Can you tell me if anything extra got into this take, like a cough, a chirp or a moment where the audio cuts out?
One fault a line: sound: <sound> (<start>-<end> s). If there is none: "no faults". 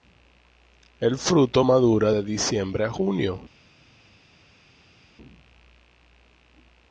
no faults